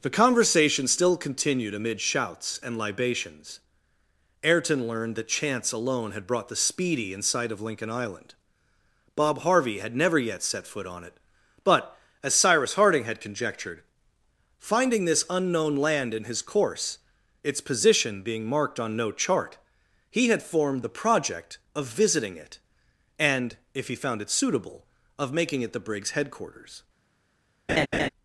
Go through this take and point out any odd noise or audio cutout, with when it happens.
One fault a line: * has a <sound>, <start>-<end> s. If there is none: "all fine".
* has a laugh, 27.7-28.1 s